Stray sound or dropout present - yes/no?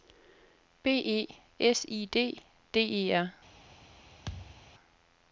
yes